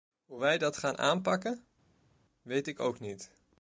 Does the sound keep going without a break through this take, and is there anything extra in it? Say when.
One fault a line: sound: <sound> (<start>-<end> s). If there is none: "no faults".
no faults